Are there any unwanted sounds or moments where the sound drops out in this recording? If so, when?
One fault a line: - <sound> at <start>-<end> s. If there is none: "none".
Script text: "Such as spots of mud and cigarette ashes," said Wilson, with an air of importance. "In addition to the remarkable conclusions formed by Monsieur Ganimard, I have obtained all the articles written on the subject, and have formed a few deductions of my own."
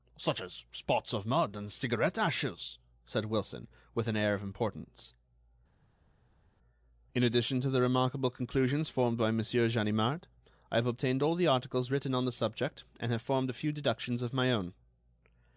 none